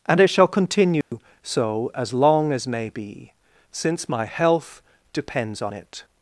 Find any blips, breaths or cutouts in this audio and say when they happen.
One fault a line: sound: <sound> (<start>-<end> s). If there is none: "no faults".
sound: dropout (1.0-1.1 s)